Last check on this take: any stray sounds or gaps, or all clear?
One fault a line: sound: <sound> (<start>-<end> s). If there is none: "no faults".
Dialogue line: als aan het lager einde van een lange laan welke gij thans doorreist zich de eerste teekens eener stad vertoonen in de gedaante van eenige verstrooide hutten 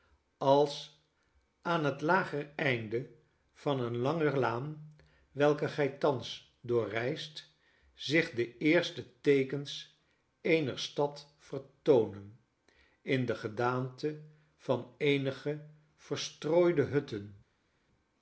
no faults